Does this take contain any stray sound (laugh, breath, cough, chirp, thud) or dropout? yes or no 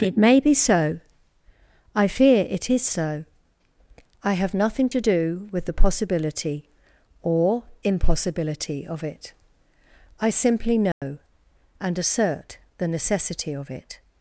yes